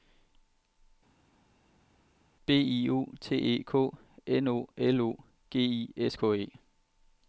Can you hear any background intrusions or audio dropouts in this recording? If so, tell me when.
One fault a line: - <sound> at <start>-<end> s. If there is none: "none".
none